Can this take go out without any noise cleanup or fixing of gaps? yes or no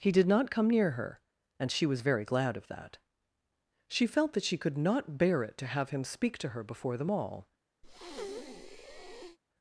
no